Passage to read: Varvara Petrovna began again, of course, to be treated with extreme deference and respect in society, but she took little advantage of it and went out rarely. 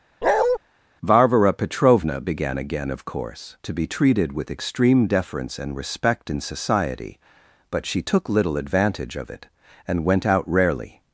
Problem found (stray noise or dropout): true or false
true